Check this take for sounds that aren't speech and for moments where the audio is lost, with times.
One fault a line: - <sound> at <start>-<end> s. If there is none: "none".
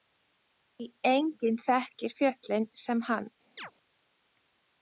- chirp at 3.6-3.7 s